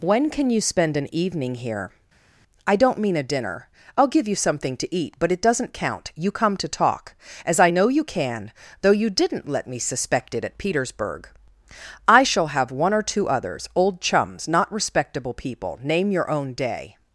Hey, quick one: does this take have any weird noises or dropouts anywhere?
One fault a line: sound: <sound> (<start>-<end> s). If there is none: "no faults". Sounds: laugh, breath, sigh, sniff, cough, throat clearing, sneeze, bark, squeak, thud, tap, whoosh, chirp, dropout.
no faults